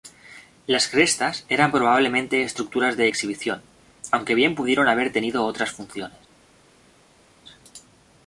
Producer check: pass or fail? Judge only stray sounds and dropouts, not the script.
pass